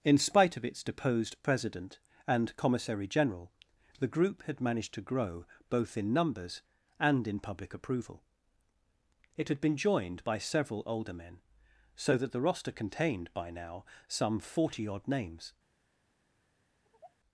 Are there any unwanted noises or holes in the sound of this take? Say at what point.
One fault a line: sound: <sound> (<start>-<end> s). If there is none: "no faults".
sound: sigh (16.8-17.2 s)